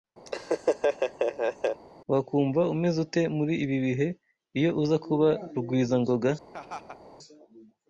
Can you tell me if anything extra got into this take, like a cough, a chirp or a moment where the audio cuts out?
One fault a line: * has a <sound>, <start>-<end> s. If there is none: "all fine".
* has a laugh, 0.3-1.8 s
* has a laugh, 6.5-7.0 s